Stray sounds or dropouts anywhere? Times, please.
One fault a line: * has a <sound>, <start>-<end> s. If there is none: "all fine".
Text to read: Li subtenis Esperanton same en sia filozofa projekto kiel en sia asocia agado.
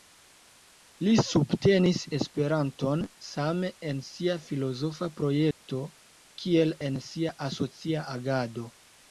* has a dropout, 5.5-5.6 s